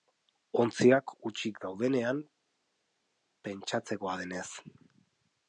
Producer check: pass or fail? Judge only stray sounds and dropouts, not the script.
pass